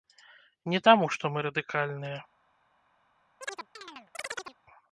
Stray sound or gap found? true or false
true